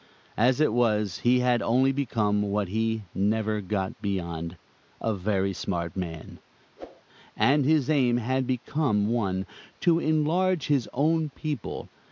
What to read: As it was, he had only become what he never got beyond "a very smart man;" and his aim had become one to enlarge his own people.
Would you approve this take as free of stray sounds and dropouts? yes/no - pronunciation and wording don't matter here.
no